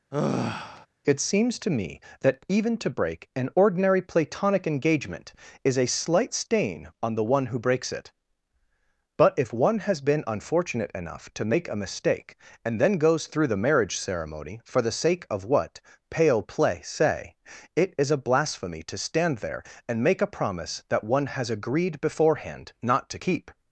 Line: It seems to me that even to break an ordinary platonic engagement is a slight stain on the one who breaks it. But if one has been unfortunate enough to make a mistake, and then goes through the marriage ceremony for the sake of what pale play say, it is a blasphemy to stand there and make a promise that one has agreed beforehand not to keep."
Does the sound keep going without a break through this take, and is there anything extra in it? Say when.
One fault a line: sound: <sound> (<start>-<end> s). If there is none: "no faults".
sound: sigh (0.1-0.9 s)